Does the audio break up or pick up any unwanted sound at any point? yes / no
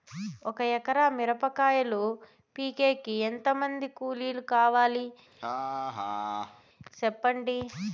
yes